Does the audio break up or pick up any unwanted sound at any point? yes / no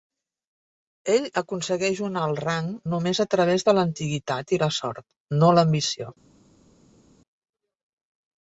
no